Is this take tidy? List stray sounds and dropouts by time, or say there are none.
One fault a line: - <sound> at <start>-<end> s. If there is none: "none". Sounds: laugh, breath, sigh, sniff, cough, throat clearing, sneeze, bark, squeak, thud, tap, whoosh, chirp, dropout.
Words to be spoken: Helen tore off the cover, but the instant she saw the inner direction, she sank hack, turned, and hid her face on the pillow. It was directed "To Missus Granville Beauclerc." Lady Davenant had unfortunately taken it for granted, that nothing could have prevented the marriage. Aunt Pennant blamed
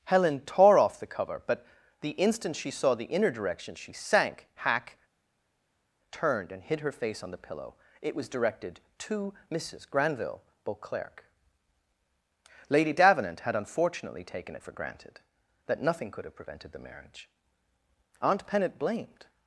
none